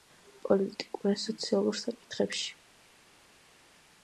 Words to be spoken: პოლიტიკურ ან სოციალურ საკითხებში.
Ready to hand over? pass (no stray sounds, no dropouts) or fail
pass